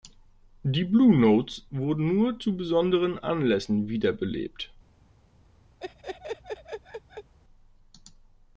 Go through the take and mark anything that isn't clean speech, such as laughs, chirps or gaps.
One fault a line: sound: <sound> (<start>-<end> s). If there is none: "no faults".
sound: laugh (5.8-7.3 s)